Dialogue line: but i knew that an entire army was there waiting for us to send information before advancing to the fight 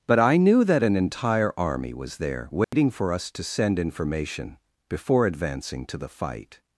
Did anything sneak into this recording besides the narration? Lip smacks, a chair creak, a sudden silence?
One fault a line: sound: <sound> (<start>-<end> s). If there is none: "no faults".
sound: dropout (2.6-2.7 s)